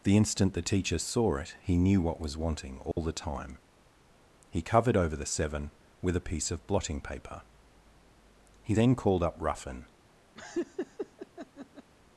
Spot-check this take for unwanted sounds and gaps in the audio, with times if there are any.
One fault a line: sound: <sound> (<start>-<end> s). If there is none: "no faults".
sound: dropout (2.9-3.0 s)
sound: laugh (10.4-11.9 s)